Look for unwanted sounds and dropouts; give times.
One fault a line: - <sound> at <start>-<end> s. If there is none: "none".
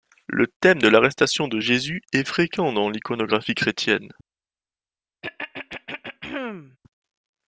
- throat clearing at 5.2-6.8 s